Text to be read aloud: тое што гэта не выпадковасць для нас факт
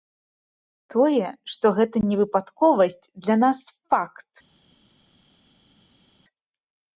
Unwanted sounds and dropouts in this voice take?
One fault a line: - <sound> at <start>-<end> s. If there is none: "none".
none